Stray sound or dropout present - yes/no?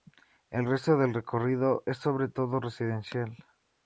no